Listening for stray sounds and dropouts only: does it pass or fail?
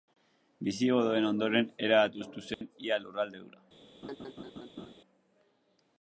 fail